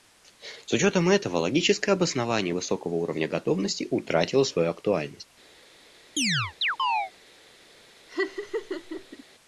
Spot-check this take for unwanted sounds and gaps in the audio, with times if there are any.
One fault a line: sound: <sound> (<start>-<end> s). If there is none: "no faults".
sound: chirp (6.2-7.1 s)
sound: laugh (8.1-9.2 s)